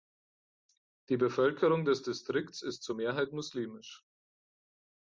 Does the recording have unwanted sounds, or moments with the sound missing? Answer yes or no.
no